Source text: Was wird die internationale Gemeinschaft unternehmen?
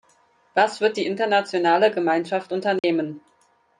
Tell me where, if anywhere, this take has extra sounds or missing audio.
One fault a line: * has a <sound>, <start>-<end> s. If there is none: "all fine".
* has a dropout, 2.8-2.8 s